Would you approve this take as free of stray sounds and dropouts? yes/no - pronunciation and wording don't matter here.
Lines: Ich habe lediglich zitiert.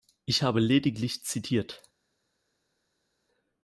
yes